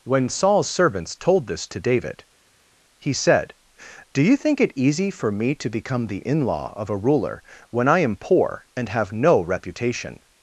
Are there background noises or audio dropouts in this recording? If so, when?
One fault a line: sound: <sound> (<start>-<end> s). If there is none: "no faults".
no faults